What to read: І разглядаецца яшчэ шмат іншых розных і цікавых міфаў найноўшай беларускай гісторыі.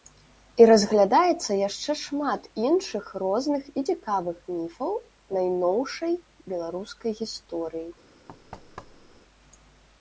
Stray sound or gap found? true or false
true